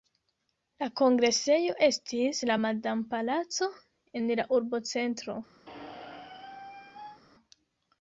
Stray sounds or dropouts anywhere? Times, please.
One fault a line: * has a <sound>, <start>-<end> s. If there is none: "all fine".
* has a squeak, 5.7-7.2 s